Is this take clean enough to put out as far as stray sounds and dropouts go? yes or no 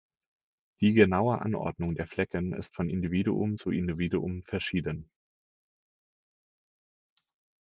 yes